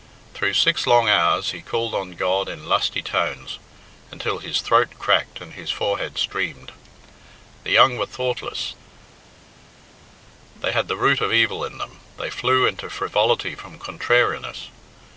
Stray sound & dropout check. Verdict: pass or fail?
pass